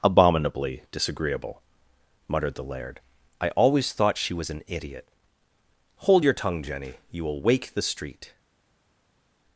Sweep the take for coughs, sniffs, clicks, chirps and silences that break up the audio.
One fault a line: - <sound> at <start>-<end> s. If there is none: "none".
none